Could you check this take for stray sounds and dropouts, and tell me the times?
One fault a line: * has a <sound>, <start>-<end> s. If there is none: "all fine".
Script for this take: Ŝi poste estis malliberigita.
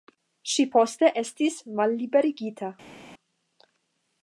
all fine